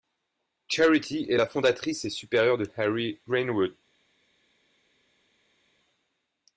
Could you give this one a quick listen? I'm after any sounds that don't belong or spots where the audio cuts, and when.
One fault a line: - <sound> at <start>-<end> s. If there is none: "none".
none